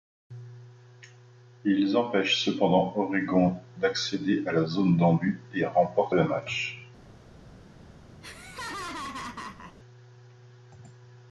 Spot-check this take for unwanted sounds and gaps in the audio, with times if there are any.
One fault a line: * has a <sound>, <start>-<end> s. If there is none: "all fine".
* has a laugh, 8.2-9.8 s